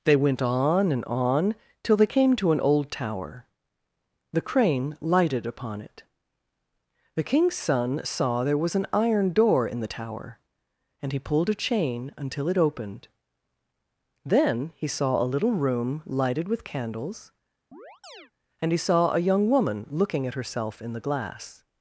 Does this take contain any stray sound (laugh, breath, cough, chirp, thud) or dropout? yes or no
yes